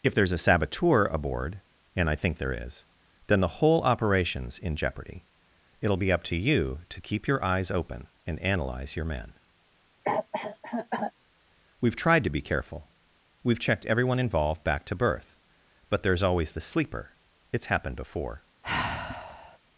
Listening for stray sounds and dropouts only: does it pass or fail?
fail